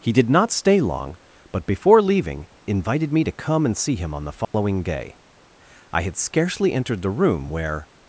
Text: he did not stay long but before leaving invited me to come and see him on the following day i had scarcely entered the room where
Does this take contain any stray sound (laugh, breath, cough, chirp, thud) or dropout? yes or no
yes